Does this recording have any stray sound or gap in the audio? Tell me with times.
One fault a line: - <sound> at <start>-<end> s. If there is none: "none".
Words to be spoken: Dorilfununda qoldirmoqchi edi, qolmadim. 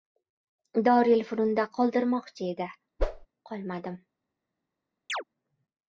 - whoosh at 3.0-3.3 s
- chirp at 5.1-5.2 s